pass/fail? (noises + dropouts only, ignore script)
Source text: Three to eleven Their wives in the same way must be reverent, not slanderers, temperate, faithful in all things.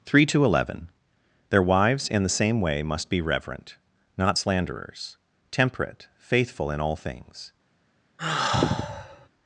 fail